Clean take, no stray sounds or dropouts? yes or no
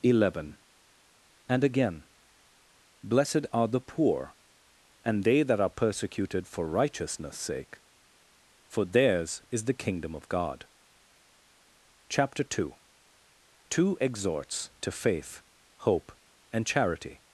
yes